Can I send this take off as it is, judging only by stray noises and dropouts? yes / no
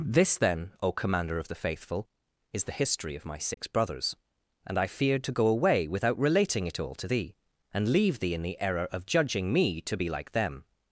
no